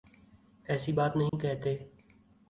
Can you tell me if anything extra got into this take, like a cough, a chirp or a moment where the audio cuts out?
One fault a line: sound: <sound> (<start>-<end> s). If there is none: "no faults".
sound: dropout (1.3-1.3 s)